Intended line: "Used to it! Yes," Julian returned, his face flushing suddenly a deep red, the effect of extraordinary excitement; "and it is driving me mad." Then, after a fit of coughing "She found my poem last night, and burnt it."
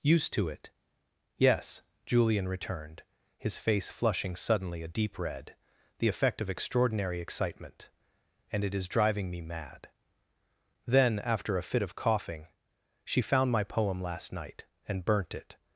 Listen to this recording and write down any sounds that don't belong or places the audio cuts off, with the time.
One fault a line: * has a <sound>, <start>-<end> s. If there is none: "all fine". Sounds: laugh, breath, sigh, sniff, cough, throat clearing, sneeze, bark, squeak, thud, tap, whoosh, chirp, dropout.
all fine